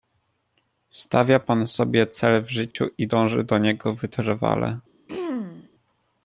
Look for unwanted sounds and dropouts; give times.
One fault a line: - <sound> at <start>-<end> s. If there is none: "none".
- dropout at 2.7-2.8 s
- throat clearing at 5.1-5.7 s